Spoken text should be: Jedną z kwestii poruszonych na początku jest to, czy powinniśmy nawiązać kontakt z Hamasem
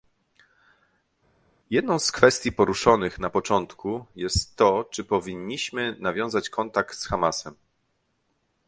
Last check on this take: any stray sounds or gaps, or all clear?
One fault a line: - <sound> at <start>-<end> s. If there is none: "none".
none